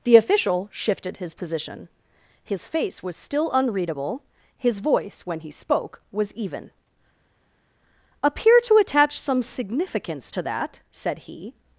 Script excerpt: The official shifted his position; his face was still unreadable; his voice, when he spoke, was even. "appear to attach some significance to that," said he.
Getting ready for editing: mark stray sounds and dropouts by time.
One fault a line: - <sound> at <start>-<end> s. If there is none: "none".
none